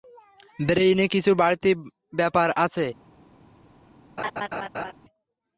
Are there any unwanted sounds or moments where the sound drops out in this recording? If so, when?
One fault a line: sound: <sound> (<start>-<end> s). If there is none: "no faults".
sound: laugh (4.2-4.9 s)